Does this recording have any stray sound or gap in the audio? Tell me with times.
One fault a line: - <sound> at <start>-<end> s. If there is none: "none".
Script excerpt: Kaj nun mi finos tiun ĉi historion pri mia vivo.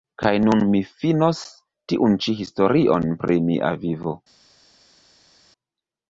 none